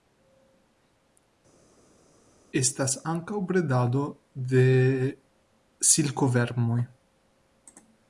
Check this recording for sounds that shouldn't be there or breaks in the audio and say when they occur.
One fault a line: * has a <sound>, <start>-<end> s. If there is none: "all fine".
all fine